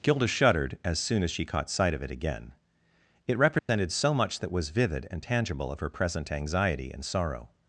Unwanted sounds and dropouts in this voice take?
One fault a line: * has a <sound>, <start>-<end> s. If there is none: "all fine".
* has a dropout, 3.6-3.7 s